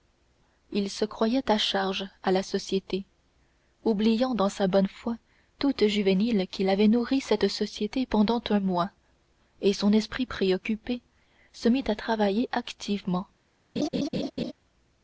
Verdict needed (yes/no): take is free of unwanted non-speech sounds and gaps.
no